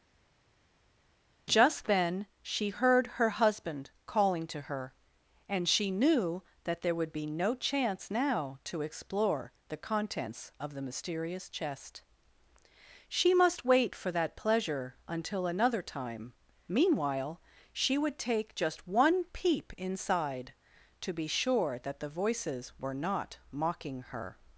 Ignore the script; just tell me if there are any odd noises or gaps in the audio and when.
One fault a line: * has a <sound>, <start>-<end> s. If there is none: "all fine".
all fine